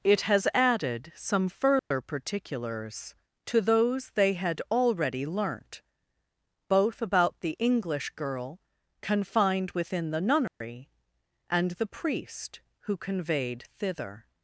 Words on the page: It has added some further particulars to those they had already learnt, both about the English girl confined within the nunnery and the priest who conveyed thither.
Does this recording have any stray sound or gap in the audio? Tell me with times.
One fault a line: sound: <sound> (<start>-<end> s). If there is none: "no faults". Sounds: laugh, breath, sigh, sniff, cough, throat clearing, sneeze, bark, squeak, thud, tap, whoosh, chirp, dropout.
sound: dropout (1.8-1.9 s)
sound: dropout (10.5-10.6 s)